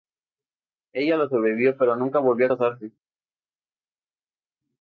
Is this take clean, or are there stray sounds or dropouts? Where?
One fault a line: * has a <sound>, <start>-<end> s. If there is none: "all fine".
all fine